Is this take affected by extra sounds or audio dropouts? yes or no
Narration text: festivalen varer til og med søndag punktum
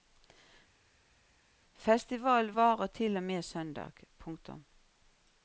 no